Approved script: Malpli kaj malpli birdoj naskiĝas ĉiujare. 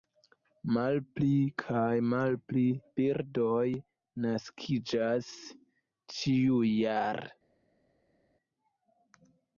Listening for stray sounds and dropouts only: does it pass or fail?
pass